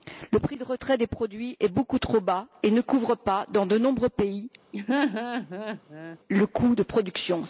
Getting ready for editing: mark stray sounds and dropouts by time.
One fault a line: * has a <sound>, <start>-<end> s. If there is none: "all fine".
* has a laugh, 4.7-6.2 s